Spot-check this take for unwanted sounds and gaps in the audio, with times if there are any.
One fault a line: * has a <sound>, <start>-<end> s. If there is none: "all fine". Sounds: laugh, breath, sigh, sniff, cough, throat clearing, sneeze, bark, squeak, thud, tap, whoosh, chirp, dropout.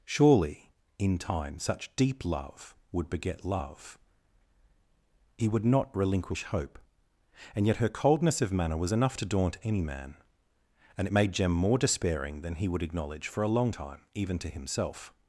all fine